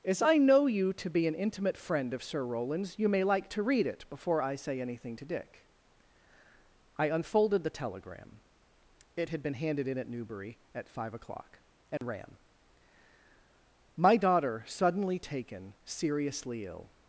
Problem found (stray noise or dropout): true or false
true